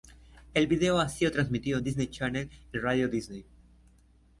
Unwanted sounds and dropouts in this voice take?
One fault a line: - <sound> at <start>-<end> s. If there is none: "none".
none